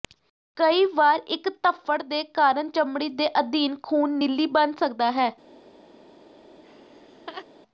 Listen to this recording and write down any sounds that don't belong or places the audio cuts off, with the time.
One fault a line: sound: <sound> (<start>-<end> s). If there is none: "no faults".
sound: laugh (6.6-7.5 s)